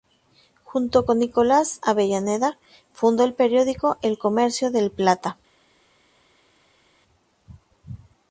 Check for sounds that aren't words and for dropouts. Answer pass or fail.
pass